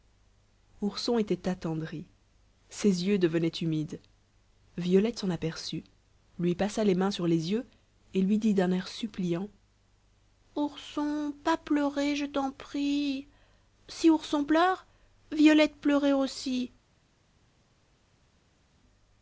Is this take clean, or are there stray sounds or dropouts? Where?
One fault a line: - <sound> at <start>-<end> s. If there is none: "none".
none